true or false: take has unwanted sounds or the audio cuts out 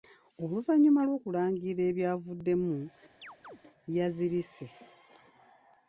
true